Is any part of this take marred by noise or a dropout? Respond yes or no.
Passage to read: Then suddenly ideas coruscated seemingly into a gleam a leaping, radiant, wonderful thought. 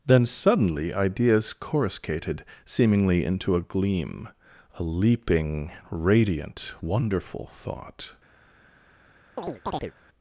yes